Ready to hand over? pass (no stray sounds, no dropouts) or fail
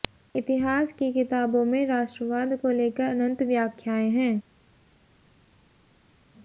pass